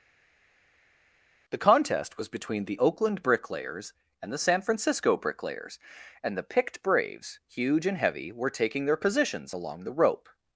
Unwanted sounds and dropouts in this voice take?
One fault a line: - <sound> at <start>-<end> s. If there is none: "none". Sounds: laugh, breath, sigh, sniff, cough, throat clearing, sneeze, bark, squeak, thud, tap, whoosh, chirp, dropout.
none